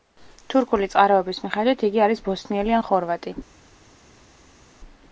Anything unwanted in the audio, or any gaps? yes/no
no